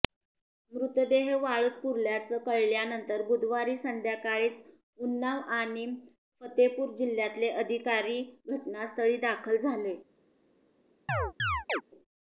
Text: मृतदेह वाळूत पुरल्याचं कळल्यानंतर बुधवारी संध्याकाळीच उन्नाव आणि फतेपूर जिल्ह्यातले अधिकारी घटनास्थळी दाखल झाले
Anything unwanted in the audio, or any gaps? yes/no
yes